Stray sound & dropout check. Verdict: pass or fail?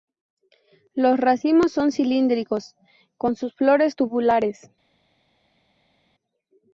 pass